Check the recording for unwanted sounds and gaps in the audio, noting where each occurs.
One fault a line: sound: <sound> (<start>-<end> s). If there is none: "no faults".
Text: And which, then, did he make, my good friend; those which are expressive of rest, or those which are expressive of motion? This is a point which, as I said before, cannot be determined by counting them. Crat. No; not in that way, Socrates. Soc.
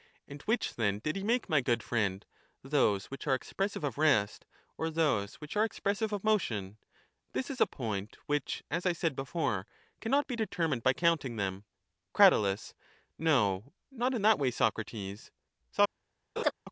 sound: laugh (16.4-16.5 s)